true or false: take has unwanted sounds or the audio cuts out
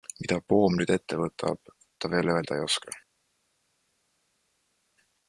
false